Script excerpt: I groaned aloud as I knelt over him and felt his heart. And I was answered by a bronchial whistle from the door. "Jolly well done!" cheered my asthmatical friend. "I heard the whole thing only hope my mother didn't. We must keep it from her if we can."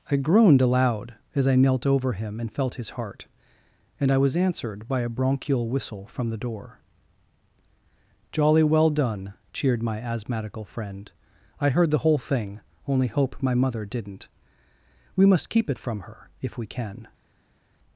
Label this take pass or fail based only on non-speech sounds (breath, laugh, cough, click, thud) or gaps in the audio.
pass